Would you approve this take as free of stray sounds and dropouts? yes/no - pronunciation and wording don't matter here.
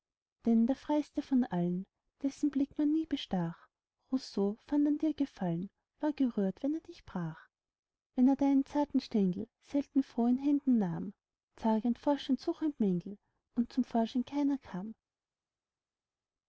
yes